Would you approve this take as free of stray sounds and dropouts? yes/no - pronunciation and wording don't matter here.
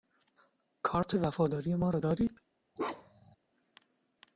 no